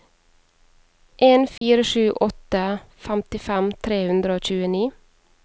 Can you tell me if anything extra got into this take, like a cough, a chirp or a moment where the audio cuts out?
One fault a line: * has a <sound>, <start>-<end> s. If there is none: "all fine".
* has a dropout, 1.6-1.6 s